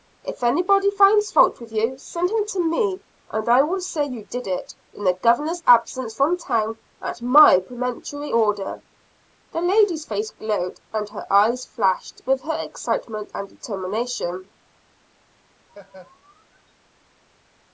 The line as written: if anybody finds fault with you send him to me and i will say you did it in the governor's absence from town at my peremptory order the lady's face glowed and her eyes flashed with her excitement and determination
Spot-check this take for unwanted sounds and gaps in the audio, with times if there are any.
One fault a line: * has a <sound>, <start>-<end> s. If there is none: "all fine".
* has a laugh, 15.7-16.7 s